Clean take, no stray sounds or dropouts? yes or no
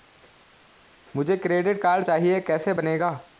yes